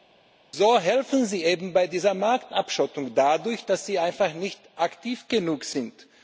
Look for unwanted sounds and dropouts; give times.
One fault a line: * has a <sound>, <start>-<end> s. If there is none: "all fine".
all fine